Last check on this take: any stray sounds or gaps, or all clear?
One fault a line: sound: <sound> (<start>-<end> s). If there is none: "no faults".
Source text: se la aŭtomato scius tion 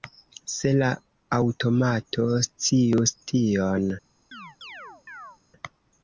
sound: chirp (4.3-5.4 s)